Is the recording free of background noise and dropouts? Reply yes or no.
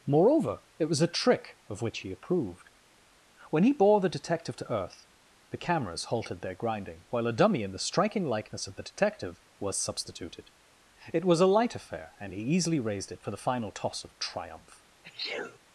no